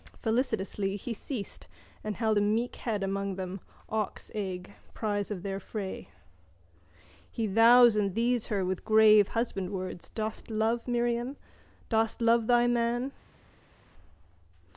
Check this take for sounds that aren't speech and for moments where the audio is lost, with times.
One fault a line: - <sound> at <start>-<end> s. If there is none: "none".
none